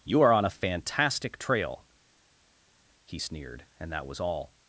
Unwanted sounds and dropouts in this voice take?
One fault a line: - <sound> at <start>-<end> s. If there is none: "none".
none